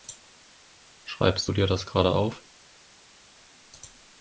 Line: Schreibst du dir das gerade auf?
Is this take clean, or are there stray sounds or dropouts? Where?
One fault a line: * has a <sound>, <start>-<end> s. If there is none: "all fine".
all fine